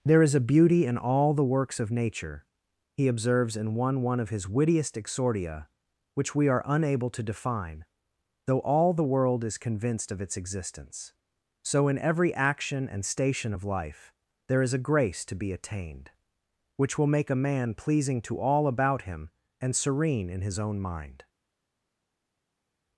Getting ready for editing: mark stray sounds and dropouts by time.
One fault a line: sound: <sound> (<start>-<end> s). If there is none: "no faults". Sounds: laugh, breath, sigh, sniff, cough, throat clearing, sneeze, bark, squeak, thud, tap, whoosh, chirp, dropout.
no faults